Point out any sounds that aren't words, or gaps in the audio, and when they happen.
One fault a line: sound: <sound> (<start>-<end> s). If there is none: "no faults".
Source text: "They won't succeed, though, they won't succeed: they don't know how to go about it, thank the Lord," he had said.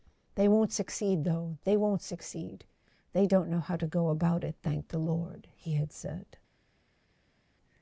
no faults